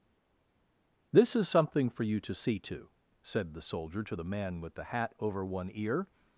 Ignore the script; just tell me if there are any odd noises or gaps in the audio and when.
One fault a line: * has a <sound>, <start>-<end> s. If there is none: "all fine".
all fine